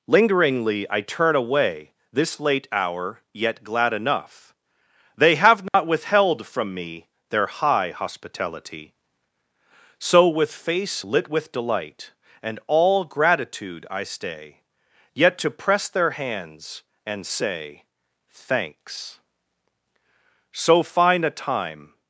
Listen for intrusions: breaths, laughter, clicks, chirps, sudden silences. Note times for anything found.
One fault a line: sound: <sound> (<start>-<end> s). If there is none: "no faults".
sound: dropout (5.7-5.7 s)